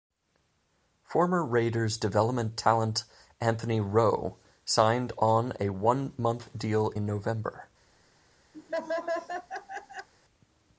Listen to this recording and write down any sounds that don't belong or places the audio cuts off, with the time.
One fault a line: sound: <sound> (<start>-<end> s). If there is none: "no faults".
sound: laugh (8.5-10.1 s)